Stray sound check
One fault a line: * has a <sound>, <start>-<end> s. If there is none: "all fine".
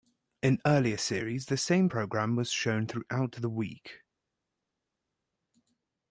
all fine